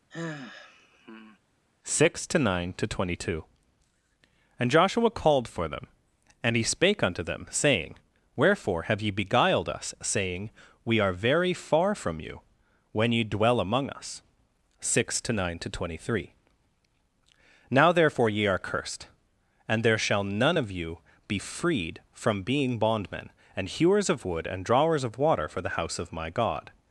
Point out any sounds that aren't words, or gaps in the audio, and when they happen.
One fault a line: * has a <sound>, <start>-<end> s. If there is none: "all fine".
* has a sigh, 0.1-1.4 s